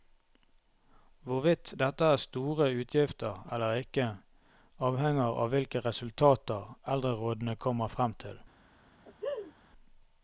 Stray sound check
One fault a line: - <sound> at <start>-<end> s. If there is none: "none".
- laugh at 9.0-9.5 s